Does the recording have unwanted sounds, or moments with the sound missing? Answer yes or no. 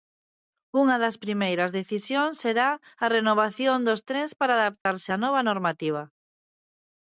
yes